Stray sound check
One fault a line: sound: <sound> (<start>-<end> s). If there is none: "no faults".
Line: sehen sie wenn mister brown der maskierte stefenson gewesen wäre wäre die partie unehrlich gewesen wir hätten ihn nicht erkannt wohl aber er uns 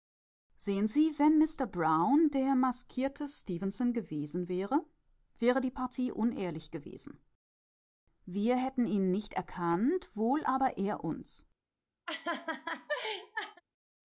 sound: laugh (12.1-13.6 s)